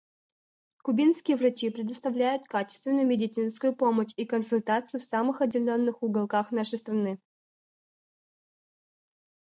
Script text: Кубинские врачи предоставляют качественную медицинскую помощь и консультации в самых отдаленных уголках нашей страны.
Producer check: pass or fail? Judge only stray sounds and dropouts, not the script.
pass